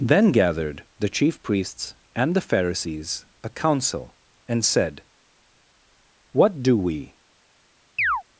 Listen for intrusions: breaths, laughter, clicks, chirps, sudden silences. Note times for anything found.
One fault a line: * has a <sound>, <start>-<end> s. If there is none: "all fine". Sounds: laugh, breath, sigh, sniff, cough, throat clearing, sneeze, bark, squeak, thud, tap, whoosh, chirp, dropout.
* has a chirp, 8.0-8.2 s